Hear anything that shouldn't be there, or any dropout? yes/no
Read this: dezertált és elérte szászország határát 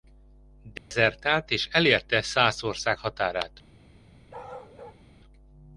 yes